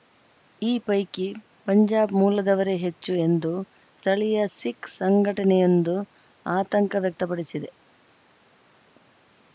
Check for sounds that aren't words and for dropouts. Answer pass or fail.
pass